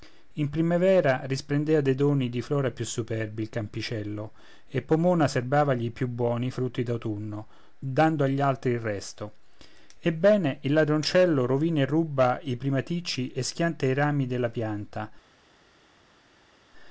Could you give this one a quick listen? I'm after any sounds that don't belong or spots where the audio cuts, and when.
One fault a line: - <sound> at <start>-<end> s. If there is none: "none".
none